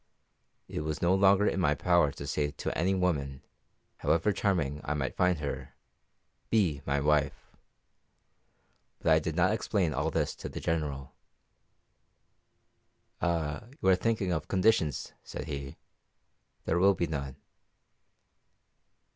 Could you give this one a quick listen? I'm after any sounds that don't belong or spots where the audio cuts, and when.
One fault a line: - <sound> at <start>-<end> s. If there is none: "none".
none